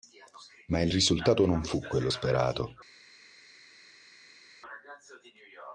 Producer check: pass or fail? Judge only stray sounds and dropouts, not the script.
pass